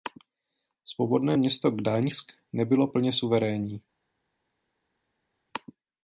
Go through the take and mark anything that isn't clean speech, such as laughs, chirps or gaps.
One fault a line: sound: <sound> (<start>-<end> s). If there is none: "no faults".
no faults